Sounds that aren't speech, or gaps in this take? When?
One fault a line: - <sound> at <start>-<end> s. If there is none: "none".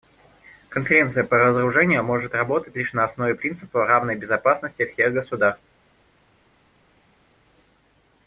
none